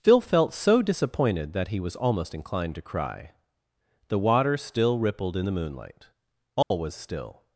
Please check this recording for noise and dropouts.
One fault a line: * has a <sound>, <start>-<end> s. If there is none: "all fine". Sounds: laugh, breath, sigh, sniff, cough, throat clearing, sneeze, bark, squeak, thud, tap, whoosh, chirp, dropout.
* has a dropout, 6.6-6.7 s